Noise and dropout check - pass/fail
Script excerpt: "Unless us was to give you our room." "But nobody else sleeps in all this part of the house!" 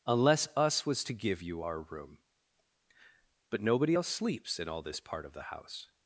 pass